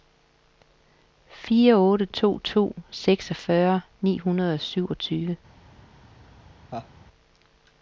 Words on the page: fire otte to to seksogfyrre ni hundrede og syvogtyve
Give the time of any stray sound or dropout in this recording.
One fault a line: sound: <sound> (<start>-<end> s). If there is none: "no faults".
sound: laugh (6.7-6.9 s)